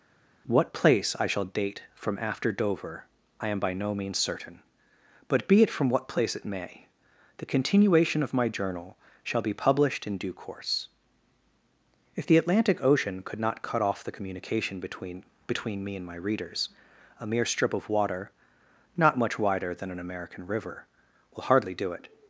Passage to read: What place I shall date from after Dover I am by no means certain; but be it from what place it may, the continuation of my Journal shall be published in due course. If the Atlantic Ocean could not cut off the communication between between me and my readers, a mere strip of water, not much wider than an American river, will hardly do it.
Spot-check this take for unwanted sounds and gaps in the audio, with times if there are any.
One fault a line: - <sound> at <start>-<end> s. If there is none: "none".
none